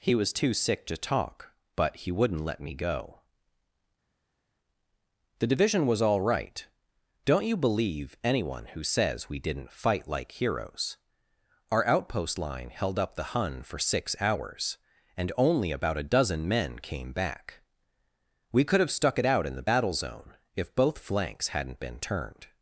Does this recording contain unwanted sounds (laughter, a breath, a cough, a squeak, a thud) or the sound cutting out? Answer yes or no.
no